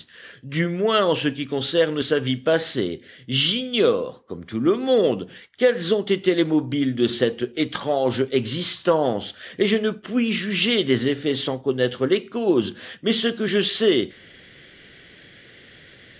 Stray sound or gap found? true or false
false